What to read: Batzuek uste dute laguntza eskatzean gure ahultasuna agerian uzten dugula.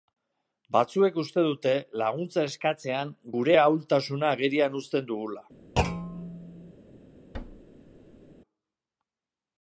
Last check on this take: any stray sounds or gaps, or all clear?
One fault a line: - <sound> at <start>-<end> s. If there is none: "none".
- thud at 5.8-6.7 s
- thud at 7.3-8.3 s